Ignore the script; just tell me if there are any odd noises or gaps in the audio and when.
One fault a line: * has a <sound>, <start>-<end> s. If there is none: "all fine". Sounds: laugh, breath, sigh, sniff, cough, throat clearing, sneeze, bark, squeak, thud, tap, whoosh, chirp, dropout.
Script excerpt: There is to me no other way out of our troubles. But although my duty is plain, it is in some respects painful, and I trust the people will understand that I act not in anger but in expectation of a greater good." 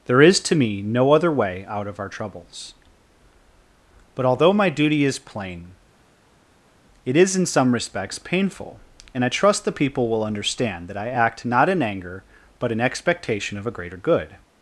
all fine